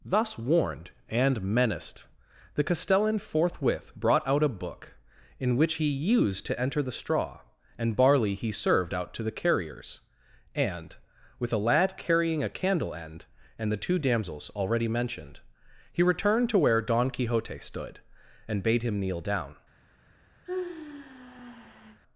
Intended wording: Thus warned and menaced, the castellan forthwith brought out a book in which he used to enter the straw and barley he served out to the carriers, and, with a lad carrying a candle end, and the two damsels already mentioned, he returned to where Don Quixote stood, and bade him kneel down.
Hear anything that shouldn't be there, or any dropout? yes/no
yes